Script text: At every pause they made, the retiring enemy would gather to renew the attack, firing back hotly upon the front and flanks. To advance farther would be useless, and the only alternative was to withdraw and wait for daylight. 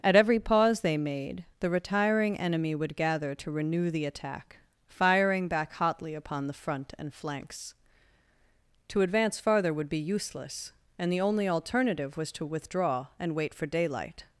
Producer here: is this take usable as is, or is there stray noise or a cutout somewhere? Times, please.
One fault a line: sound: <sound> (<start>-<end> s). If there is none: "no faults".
no faults